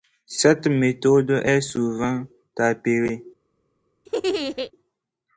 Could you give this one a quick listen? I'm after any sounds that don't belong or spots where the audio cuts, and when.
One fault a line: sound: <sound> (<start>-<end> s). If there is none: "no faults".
sound: laugh (4.1-4.7 s)